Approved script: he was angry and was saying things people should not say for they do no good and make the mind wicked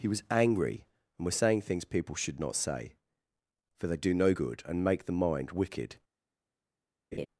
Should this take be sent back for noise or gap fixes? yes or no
yes